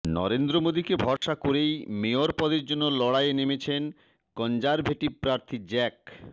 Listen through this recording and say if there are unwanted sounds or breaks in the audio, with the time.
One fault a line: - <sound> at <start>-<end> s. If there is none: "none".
- dropout at 1.2-1.2 s